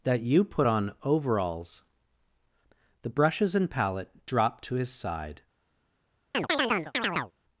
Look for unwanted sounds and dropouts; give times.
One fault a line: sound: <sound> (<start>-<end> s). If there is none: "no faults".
sound: chirp (6.3-7.3 s)